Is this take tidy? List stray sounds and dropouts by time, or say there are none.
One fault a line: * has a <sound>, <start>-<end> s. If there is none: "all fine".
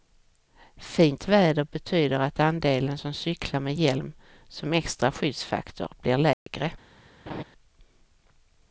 * has a dropout, 6.3-6.5 s
* has a laugh, 7.3-7.4 s